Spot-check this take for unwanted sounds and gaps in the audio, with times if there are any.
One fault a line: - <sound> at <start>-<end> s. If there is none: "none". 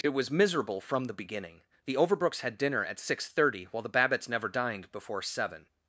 none